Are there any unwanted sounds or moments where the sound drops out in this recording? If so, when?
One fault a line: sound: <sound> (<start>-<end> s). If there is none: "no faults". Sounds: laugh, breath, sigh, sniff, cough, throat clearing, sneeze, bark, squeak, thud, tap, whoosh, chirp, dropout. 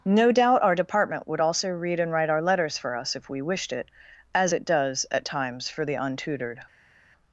no faults